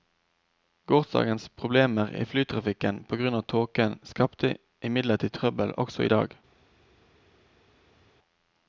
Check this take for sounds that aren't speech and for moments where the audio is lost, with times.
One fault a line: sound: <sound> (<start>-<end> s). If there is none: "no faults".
no faults